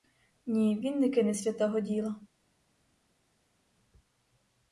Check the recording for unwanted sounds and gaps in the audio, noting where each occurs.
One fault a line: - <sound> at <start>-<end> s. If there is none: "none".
none